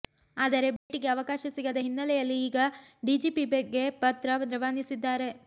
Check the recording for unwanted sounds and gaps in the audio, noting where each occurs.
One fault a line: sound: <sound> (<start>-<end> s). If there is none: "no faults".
sound: dropout (0.8-0.9 s)